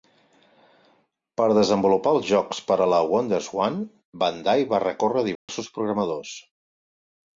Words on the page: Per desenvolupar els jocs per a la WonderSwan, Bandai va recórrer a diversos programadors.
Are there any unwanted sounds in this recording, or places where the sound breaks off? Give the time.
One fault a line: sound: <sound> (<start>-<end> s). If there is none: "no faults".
sound: dropout (5.4-5.5 s)